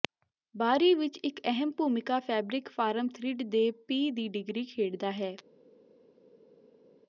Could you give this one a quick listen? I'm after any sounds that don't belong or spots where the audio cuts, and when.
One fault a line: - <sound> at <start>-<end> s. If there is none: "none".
none